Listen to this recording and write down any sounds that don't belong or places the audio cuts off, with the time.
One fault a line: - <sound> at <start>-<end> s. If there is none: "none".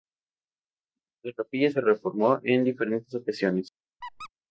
- squeak at 4.0-4.3 s